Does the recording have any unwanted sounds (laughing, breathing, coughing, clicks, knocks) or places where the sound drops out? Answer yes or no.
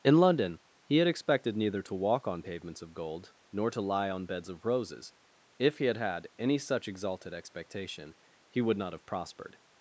no